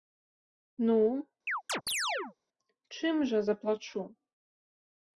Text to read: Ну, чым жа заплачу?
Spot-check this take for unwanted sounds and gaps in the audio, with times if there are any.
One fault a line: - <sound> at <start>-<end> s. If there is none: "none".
- chirp at 1.5-2.4 s